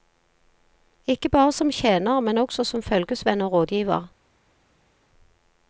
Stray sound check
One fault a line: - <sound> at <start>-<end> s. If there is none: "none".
none